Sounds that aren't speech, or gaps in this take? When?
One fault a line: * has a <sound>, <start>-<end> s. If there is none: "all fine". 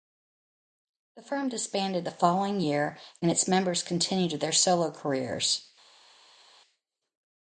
all fine